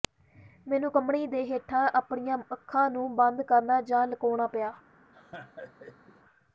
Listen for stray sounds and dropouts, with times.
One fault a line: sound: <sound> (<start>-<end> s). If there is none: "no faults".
sound: laugh (5.1-6.2 s)